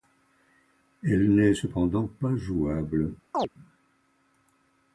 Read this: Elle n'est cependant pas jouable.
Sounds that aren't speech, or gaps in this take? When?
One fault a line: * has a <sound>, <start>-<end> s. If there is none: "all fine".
* has a chirp, 3.3-3.5 s